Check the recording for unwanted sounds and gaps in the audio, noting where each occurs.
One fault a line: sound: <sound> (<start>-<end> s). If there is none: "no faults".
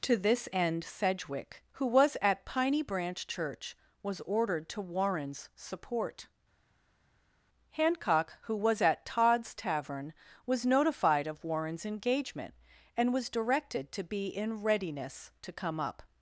no faults